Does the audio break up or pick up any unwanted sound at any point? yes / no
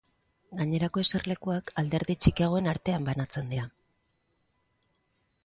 no